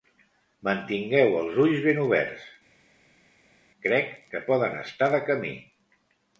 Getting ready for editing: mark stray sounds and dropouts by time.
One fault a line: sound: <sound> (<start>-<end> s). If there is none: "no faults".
no faults